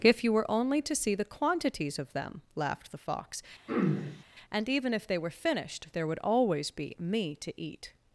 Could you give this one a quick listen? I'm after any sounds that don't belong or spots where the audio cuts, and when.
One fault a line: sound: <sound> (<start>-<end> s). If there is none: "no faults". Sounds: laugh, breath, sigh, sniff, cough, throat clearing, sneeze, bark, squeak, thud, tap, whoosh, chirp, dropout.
sound: throat clearing (3.7-4.2 s)